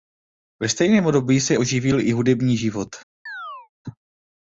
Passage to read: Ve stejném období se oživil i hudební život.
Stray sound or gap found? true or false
true